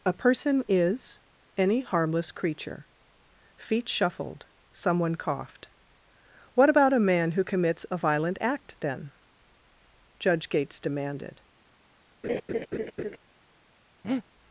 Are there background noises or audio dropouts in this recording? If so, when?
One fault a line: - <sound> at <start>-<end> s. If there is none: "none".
- laugh at 12.2-13.2 s
- breath at 14.0-14.2 s